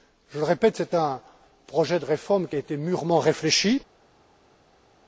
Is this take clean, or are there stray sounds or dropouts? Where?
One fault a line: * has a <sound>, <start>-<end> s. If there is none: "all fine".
all fine